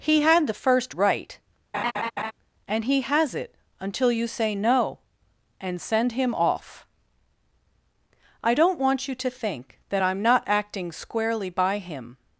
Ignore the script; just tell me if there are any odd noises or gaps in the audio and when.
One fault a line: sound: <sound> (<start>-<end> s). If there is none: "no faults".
sound: laugh (1.7-2.3 s)